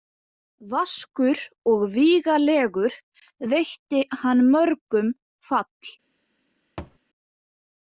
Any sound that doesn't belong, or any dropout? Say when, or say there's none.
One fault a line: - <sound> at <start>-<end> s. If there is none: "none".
- thud at 6.8-7.0 s